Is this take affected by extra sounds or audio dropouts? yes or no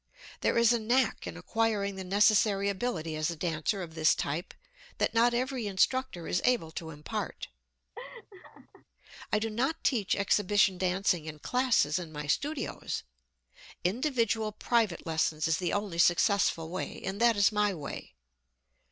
yes